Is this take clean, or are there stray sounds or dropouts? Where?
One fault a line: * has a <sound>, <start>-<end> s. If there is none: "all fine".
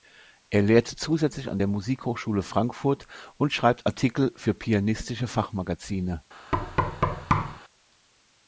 * has a thud, 6.5-7.6 s